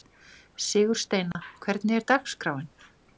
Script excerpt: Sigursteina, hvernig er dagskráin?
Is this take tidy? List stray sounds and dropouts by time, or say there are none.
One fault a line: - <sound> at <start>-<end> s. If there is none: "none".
- dropout at 1.3-1.3 s